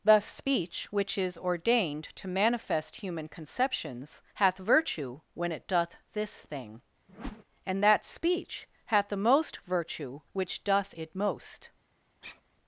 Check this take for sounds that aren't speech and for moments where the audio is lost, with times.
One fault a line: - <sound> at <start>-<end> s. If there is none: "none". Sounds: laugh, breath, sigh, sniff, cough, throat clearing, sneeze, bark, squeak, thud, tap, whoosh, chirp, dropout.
- whoosh at 7.1-7.4 s
- sigh at 12.2-12.4 s